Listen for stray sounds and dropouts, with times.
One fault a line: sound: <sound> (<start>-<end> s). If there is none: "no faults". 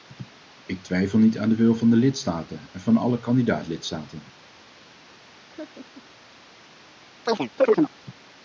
sound: laugh (5.2-6.1 s)
sound: chirp (7.3-7.9 s)